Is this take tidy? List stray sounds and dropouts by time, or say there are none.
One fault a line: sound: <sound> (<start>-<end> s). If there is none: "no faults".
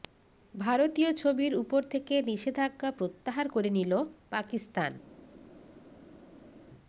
no faults